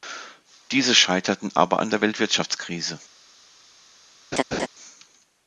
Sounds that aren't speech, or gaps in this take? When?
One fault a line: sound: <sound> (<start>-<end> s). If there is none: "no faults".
sound: laugh (4.3-4.7 s)